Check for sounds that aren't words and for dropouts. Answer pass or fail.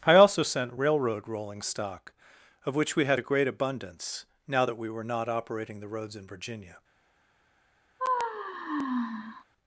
fail